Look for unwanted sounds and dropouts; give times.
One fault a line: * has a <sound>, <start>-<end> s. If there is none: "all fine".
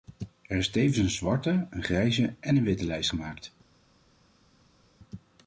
all fine